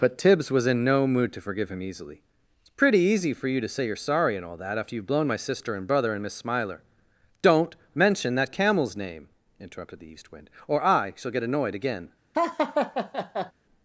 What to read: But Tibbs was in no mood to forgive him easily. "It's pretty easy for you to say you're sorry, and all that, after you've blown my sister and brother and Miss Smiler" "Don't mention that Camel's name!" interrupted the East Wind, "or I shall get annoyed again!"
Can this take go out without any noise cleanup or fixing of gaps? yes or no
no